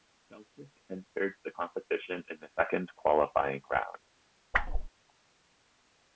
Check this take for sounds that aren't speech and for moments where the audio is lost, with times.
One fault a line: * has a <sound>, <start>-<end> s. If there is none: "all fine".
* has a whoosh, 4.5-4.9 s